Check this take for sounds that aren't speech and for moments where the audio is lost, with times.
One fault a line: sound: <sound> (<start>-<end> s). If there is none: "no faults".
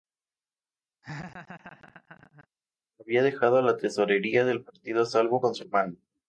sound: laugh (1.0-2.5 s)